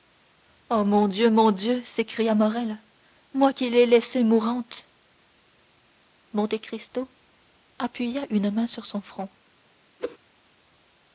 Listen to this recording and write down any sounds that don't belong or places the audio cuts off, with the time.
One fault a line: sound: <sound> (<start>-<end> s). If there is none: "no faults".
sound: whoosh (10.0-10.2 s)